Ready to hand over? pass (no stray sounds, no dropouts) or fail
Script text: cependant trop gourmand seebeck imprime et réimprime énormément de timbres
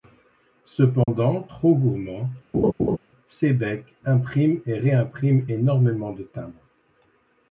fail